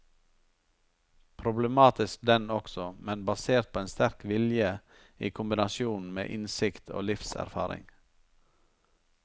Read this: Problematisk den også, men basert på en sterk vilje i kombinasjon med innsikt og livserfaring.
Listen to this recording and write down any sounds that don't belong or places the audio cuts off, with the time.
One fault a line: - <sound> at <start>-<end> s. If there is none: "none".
none